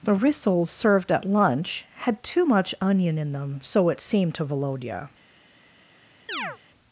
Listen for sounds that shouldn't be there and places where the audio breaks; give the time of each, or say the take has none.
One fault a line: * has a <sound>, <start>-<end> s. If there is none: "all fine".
* has a chirp, 6.3-6.6 s